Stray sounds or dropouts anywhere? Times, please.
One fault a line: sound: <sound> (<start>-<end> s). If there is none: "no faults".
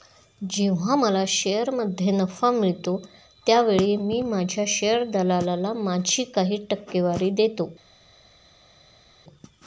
no faults